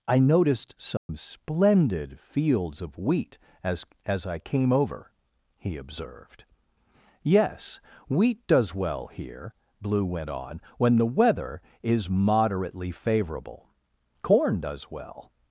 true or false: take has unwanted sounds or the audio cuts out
true